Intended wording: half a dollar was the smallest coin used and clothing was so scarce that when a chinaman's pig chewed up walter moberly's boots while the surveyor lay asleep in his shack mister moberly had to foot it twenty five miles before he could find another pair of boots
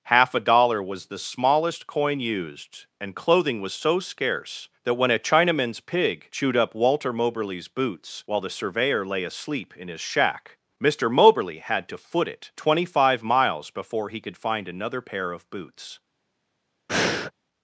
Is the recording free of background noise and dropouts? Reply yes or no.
no